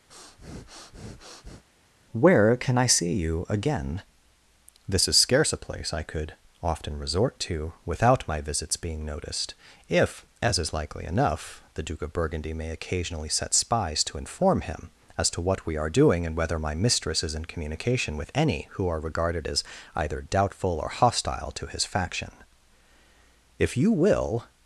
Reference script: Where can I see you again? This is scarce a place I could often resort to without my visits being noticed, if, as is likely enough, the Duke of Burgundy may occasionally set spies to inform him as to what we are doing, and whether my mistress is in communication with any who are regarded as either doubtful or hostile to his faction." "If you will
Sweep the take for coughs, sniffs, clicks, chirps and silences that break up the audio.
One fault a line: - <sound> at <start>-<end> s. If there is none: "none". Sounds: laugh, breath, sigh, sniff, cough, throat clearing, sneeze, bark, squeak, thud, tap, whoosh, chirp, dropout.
- breath at 0.1-1.6 s